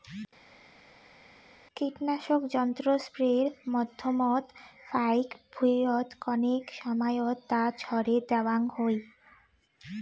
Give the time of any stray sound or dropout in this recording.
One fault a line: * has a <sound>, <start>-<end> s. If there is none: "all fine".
all fine